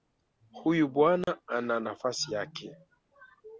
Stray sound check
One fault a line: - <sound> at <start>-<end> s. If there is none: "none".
- dropout at 1.2-1.3 s